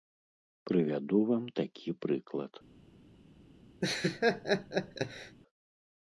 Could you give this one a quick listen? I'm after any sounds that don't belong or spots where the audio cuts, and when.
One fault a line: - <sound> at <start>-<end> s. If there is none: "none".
- laugh at 3.8-5.4 s